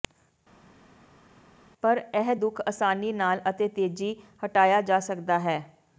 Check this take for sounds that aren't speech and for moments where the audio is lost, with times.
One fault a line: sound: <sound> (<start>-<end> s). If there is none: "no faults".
no faults